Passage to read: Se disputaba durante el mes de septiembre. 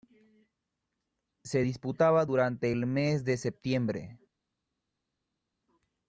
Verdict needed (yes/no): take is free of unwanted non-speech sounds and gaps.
yes